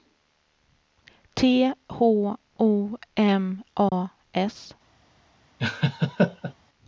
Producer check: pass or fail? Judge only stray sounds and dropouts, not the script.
fail